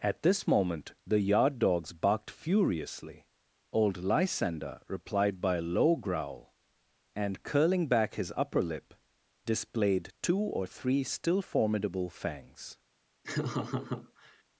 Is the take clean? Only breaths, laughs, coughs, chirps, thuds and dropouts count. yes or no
no